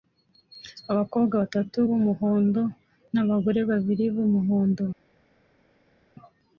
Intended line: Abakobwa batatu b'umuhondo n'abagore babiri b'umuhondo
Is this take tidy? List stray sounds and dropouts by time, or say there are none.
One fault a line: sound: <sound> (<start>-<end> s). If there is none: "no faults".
no faults